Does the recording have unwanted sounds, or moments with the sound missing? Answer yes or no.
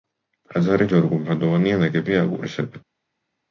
no